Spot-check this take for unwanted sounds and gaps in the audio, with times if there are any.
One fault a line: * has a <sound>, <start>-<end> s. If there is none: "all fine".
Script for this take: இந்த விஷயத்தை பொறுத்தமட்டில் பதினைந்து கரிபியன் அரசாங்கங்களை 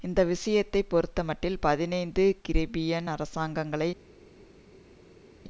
all fine